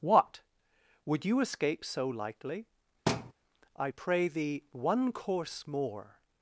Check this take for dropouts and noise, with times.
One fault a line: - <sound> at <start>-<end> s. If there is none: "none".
- thud at 3.1-3.3 s